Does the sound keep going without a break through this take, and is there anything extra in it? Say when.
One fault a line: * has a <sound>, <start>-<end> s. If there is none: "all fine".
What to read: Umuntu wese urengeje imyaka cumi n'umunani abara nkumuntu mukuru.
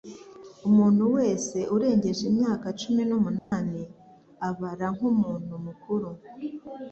* has a dropout, 3.4-3.5 s